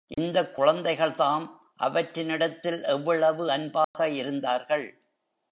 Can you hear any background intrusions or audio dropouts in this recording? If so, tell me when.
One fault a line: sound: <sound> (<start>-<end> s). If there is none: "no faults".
sound: dropout (3.8-3.9 s)